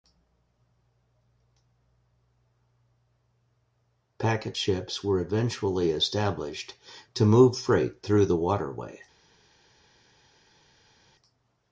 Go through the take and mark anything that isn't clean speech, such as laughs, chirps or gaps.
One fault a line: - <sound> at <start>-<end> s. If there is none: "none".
none